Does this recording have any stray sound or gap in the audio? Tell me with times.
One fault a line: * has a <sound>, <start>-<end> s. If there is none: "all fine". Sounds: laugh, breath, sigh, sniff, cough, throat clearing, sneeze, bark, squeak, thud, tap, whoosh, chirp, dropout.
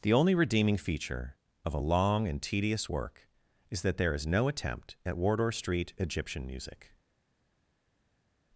all fine